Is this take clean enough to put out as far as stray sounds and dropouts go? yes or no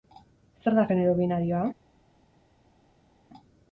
yes